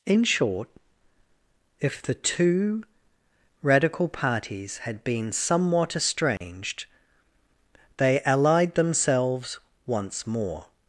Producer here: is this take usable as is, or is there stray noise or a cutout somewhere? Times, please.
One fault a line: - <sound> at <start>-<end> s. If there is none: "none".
- dropout at 6.4-6.4 s